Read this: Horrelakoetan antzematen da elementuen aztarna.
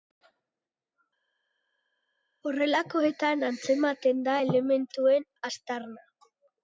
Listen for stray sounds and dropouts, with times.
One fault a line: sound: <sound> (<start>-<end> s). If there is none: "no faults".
no faults